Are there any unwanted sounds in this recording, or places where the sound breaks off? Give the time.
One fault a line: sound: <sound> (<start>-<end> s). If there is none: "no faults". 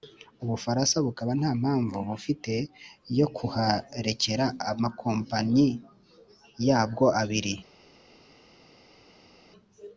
no faults